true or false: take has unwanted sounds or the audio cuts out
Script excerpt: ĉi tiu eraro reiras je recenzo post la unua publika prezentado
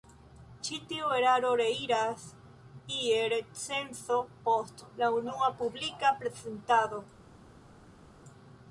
false